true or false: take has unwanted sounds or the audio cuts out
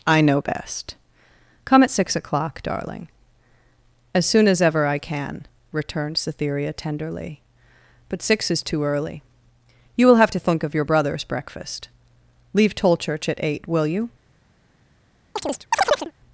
true